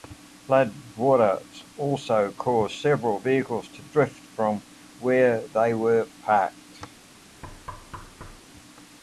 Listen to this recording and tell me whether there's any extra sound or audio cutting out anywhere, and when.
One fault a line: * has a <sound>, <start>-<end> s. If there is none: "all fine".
* has a thud, 7.4-8.4 s